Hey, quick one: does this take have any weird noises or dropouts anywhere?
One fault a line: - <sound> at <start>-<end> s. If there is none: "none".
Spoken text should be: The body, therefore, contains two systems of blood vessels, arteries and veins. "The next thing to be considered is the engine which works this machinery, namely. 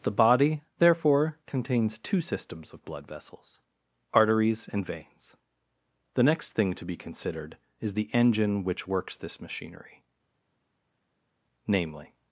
none